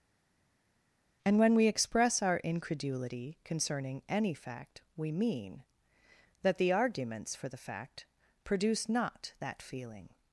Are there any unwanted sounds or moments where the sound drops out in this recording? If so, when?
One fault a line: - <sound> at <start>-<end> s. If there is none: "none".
none